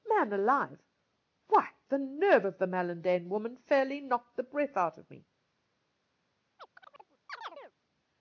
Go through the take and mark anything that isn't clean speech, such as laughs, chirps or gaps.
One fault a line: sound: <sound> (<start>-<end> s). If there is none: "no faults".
sound: chirp (6.6-7.7 s)